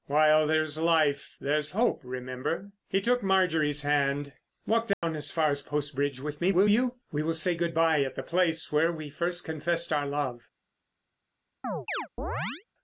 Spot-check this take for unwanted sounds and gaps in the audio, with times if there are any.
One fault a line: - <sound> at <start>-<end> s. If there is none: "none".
- dropout at 4.9-5.0 s
- chirp at 11.6-12.6 s